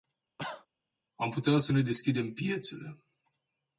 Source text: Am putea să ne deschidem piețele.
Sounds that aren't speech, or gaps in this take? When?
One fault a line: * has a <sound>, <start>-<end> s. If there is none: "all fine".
* has a cough, 0.4-0.7 s